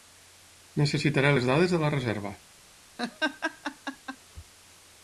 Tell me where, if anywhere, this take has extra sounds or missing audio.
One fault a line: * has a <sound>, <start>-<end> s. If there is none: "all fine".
* has a laugh, 3.0-4.2 s